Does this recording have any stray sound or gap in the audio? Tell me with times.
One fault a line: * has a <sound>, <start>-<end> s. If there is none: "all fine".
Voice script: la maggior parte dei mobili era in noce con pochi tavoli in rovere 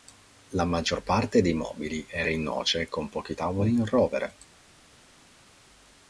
all fine